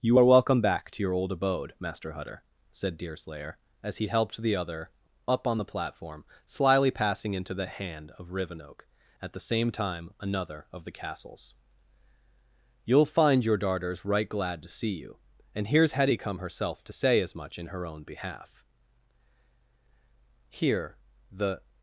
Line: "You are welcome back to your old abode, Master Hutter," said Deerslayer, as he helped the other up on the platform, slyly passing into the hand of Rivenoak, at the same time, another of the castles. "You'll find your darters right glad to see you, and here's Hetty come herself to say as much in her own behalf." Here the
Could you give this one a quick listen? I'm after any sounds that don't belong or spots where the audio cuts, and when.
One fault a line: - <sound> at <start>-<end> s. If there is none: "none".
none